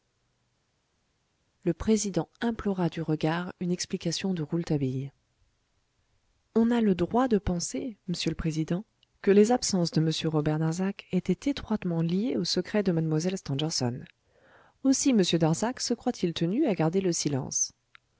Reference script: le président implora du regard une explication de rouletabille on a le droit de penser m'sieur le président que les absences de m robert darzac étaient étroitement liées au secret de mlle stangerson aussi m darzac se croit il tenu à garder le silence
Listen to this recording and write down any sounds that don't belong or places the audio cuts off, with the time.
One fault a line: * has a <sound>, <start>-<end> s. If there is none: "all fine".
all fine